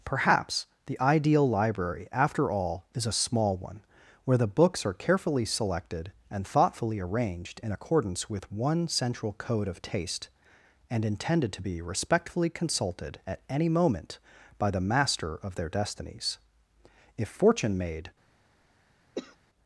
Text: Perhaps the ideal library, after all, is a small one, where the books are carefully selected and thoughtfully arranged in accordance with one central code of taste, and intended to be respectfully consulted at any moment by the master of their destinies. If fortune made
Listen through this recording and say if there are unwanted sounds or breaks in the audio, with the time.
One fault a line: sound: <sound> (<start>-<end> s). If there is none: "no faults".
sound: cough (19.2-19.4 s)